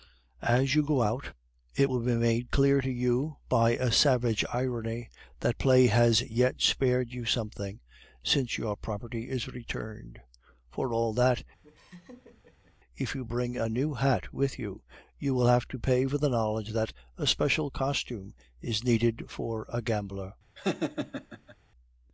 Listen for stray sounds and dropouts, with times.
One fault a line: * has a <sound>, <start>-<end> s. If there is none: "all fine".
* has a laugh, 11.6-12.8 s
* has a laugh, 20.5-21.6 s